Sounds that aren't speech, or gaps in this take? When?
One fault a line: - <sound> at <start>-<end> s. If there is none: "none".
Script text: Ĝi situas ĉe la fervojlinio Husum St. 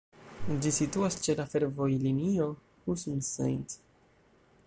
none